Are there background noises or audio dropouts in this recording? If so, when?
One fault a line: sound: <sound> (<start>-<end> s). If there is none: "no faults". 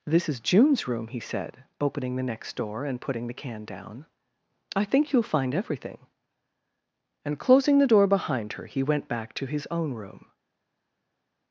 no faults